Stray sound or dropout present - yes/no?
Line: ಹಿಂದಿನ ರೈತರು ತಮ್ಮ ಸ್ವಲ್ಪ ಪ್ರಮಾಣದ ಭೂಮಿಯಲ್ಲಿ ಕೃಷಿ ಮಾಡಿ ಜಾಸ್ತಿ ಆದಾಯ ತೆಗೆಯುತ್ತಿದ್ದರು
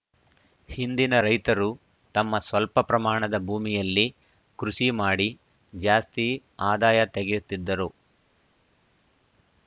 no